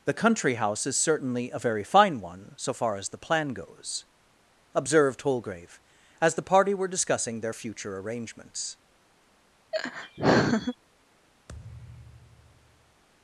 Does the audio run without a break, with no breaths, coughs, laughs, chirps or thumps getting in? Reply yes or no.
no